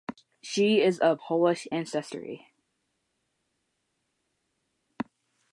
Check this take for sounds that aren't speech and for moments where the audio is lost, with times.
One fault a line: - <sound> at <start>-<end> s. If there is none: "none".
none